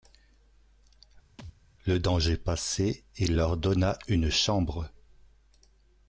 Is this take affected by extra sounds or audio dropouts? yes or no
yes